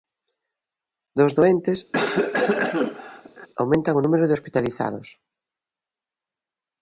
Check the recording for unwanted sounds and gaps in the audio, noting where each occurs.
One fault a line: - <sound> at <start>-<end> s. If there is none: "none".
- cough at 1.9-3.5 s